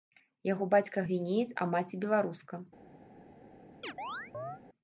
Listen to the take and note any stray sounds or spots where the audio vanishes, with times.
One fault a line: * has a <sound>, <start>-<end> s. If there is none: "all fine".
* has a chirp, 3.8-4.6 s